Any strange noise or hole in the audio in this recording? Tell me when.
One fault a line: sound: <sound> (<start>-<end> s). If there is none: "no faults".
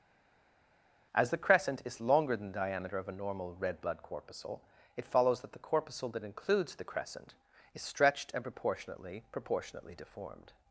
no faults